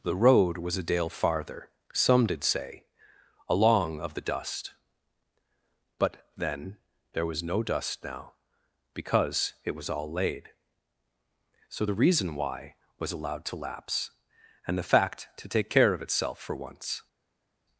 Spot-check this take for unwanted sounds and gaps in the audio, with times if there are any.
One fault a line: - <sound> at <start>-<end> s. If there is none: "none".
none